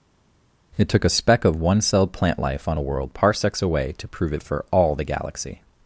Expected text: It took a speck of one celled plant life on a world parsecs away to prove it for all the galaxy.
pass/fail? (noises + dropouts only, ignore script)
pass